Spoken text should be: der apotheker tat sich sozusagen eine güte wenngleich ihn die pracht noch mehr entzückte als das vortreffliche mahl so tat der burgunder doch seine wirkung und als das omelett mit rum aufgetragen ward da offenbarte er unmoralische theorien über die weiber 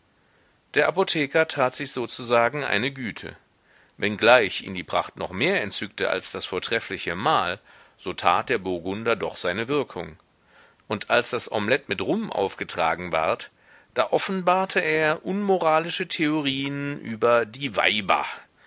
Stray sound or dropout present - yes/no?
no